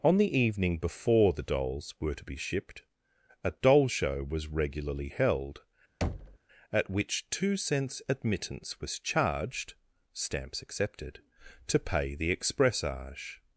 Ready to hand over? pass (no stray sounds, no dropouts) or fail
fail